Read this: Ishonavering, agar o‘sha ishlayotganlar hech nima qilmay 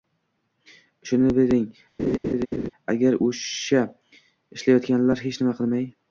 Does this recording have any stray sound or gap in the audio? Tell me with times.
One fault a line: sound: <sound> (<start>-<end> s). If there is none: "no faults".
sound: laugh (2.0-2.7 s)